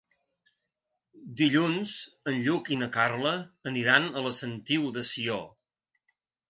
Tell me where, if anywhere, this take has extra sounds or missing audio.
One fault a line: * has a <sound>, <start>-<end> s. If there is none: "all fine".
all fine